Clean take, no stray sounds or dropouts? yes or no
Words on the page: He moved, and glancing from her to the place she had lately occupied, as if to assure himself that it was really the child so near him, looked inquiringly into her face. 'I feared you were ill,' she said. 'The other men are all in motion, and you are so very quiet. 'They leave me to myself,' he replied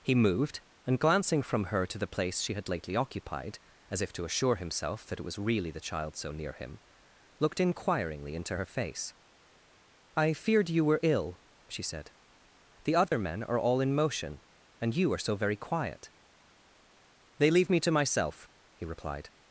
no